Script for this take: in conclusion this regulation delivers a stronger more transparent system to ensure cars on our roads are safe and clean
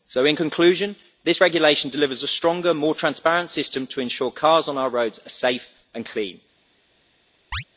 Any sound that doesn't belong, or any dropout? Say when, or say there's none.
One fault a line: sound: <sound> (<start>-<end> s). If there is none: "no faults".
sound: chirp (7.5-7.6 s)